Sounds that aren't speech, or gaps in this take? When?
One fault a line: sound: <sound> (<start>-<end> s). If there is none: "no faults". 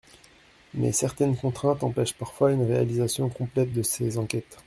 no faults